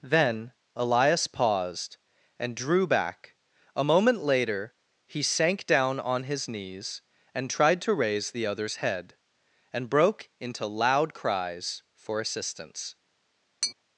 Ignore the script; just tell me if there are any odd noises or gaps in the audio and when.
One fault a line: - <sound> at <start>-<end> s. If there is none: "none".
- tap at 13.6-13.7 s